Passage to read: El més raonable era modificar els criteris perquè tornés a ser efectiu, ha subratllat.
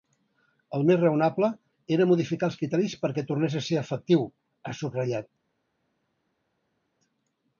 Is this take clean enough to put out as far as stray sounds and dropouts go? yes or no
yes